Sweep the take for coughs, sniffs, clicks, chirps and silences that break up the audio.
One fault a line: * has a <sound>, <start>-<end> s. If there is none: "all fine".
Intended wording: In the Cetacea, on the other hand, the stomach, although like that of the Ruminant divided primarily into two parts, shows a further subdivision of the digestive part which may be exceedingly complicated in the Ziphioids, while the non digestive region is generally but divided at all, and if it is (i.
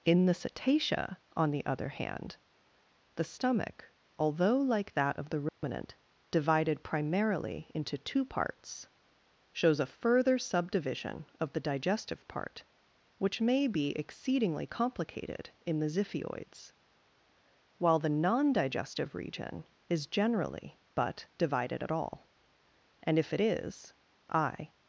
* has a dropout, 5.5-5.6 s